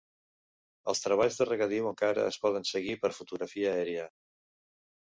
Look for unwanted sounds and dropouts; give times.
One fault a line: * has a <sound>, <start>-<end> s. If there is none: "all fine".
all fine